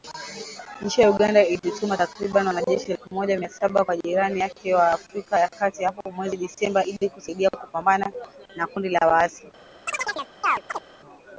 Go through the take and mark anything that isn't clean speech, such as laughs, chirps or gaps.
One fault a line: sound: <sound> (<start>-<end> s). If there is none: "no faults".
sound: chirp (9.9-10.8 s)